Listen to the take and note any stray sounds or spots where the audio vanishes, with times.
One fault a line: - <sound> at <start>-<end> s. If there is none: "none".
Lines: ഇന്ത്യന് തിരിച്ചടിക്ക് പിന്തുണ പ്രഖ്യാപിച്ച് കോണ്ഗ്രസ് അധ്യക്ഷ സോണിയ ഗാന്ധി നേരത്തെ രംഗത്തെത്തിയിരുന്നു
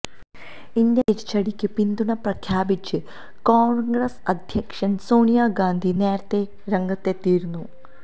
none